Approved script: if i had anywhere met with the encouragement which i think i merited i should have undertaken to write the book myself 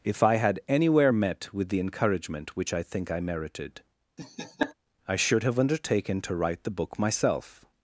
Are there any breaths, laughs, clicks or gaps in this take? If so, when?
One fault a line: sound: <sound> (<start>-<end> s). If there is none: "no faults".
sound: laugh (4.2-4.7 s)